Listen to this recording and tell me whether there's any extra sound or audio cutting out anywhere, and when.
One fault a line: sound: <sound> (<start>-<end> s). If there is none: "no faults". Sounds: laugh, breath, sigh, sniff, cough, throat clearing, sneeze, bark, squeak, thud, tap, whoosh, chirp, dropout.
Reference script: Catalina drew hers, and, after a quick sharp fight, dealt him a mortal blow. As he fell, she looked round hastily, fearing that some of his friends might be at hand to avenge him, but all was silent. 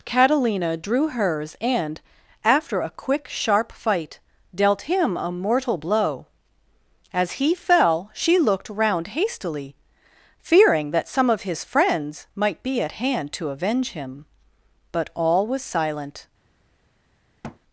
sound: thud (17.4-17.6 s)